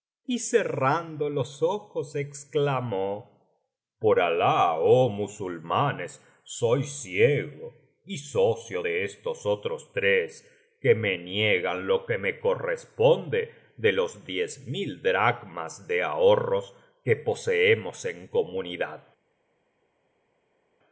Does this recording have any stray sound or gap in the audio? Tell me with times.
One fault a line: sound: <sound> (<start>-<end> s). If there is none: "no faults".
no faults